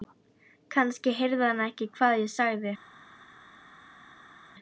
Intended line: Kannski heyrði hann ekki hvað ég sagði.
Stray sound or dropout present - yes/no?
no